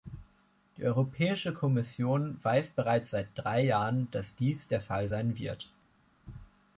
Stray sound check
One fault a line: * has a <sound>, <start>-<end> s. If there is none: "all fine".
all fine